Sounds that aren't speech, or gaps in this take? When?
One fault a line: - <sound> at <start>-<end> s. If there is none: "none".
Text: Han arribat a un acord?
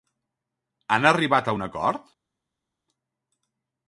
none